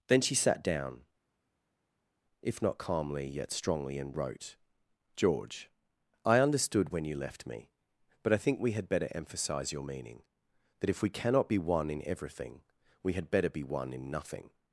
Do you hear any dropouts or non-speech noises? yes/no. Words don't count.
no